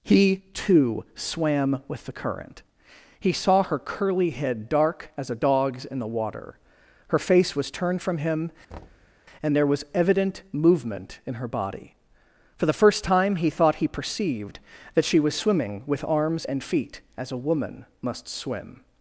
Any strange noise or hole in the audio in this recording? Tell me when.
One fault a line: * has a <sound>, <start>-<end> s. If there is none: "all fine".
* has a thud, 8.7-9.2 s